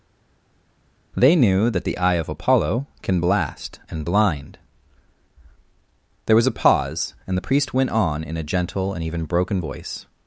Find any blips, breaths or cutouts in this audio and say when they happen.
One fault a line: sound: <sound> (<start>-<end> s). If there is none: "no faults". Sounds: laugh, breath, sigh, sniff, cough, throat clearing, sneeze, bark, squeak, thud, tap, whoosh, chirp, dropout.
no faults